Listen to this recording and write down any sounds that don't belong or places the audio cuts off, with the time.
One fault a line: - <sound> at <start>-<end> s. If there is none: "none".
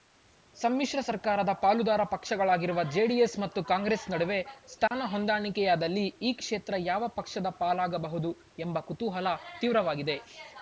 - dropout at 4.9-4.9 s